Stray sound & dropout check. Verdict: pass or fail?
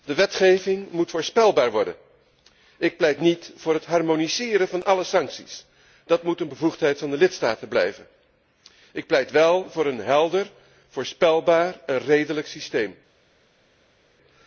pass